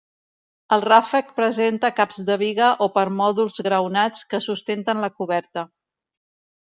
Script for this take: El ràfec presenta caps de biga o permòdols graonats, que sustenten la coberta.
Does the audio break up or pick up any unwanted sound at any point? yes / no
no